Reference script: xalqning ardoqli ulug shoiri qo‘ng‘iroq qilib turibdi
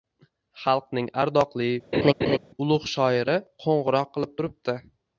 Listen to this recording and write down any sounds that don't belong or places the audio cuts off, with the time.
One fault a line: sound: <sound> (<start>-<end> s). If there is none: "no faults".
sound: laugh (1.9-2.4 s)